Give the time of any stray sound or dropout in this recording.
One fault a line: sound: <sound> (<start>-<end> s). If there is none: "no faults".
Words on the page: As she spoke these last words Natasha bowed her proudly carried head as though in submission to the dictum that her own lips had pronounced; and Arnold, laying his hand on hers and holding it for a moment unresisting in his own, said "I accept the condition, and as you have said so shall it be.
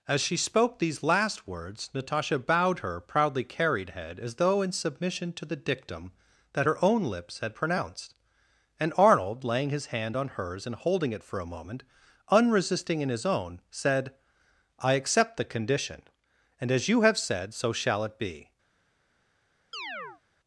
sound: chirp (19.7-20.2 s)